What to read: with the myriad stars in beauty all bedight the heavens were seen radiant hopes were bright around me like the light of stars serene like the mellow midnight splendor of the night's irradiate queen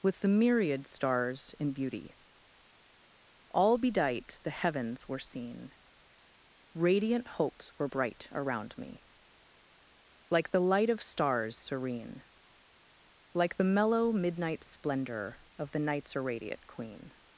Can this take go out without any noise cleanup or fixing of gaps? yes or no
yes